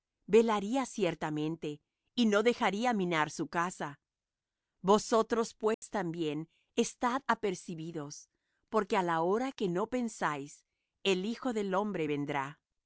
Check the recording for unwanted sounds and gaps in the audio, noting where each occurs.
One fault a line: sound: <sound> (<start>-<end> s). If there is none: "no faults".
sound: dropout (5.7-5.8 s)